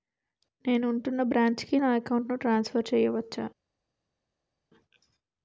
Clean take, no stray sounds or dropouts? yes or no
yes